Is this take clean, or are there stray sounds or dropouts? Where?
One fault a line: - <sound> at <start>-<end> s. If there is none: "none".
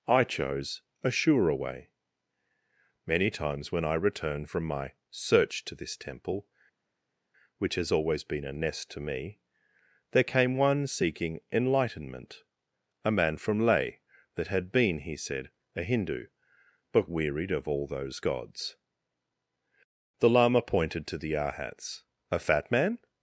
none